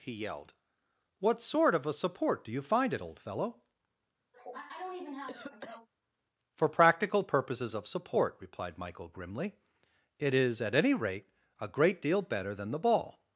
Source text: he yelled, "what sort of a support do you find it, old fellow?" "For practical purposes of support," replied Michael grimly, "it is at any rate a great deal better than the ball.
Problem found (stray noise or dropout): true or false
true